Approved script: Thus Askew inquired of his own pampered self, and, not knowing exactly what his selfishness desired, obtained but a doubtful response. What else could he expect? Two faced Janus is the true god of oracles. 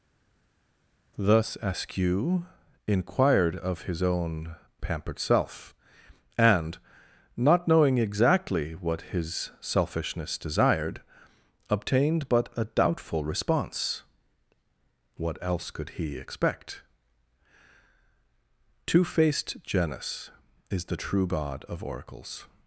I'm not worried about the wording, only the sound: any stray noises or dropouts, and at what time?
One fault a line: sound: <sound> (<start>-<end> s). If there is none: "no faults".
no faults